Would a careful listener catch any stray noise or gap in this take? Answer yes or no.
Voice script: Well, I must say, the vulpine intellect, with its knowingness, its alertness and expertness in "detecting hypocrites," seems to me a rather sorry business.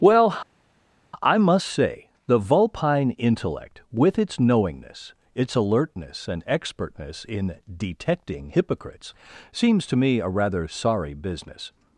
no